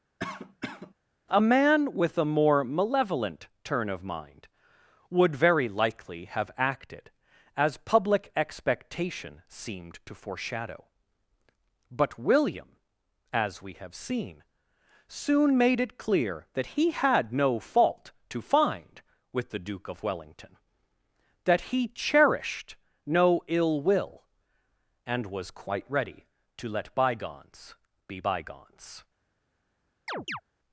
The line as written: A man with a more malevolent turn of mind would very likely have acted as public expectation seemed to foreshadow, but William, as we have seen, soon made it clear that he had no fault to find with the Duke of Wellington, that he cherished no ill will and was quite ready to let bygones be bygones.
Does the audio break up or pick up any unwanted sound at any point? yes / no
yes